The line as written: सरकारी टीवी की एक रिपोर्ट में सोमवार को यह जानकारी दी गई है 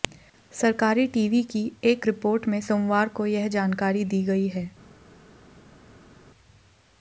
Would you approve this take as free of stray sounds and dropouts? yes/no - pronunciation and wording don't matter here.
yes